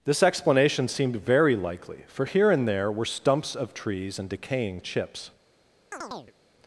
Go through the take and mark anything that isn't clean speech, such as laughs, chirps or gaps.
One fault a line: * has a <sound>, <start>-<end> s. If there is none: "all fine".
* has a chirp, 5.9-6.3 s